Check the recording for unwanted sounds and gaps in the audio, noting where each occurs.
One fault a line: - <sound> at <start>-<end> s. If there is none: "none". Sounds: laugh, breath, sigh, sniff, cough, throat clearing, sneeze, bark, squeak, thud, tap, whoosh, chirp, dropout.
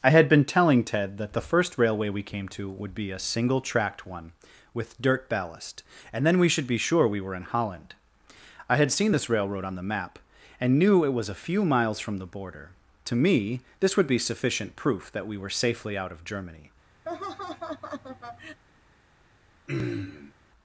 - laugh at 17.1-18.6 s
- throat clearing at 19.7-20.3 s